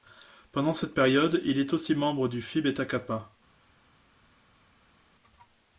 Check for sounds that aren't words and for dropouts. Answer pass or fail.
pass